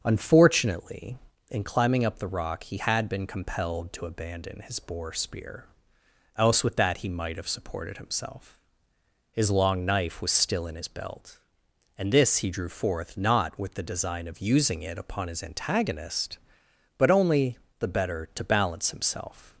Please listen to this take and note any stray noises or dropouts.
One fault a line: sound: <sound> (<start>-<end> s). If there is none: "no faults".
no faults